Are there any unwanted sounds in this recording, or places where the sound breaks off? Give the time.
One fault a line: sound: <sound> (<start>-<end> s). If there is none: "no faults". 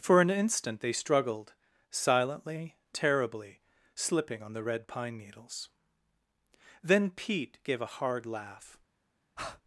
sound: breath (9.4-9.6 s)